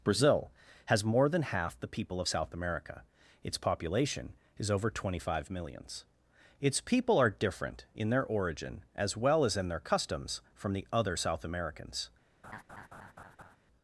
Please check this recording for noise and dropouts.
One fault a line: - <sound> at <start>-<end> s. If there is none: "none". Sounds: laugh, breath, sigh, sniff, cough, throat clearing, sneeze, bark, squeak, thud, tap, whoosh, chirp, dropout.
- laugh at 12.4-13.6 s